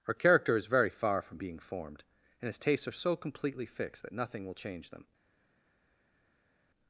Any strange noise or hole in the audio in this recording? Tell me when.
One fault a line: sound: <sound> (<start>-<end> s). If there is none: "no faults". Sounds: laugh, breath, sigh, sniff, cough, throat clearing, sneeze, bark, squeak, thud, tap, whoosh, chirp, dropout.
no faults